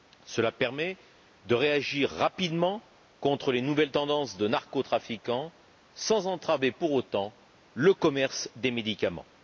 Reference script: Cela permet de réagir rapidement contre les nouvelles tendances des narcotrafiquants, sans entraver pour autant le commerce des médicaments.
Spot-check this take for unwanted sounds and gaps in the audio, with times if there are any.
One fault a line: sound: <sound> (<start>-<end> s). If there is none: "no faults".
no faults